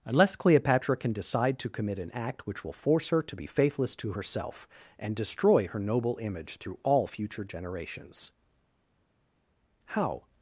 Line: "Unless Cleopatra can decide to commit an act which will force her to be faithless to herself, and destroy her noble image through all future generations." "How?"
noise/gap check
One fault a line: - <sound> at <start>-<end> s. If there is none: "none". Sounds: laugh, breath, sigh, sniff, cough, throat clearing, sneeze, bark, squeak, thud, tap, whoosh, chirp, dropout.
none